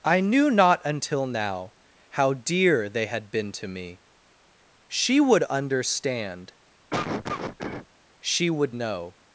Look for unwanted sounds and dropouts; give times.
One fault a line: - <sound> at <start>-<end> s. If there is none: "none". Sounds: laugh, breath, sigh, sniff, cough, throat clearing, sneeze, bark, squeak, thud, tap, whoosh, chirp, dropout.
- cough at 6.9-7.9 s